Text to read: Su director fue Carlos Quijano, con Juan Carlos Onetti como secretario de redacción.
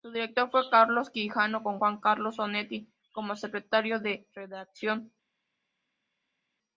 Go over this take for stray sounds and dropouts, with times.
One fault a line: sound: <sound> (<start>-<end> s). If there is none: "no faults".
no faults